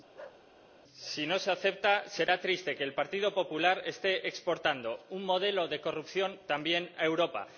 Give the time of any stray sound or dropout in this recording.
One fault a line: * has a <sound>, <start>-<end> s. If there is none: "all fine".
* has a bark, 0.1-0.4 s